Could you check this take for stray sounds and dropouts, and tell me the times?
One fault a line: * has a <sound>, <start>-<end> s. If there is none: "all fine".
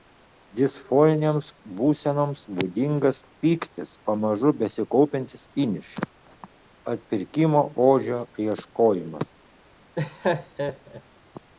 * has a laugh, 9.9-11.0 s